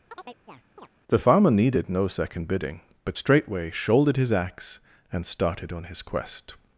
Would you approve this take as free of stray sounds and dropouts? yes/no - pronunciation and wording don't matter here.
no